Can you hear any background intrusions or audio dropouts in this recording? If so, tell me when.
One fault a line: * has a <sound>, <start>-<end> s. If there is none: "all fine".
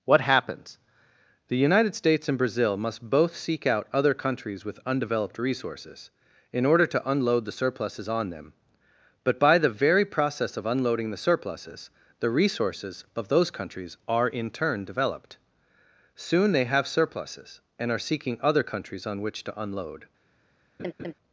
* has a laugh, 20.8-21.1 s